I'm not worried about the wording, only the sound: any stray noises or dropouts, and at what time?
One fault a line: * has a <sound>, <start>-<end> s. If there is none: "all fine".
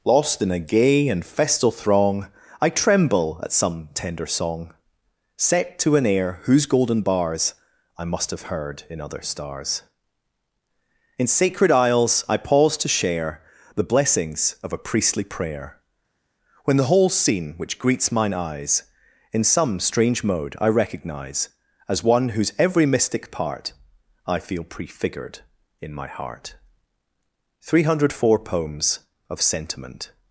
all fine